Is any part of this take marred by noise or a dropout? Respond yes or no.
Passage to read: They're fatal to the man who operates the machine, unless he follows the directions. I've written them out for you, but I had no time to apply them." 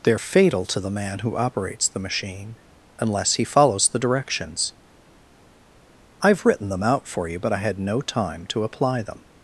no